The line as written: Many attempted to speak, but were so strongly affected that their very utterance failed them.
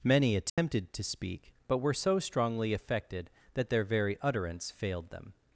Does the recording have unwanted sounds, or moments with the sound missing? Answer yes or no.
yes